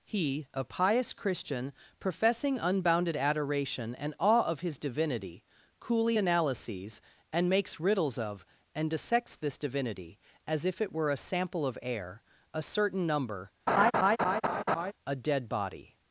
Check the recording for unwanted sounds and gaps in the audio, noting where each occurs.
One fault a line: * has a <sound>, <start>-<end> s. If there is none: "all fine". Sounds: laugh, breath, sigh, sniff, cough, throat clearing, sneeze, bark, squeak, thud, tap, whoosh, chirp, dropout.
* has a laugh, 13.7-14.9 s